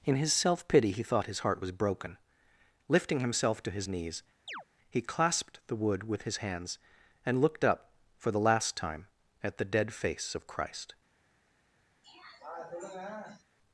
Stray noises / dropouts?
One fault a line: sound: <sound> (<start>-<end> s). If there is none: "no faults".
sound: chirp (4.5-4.6 s)
sound: throat clearing (12.0-13.4 s)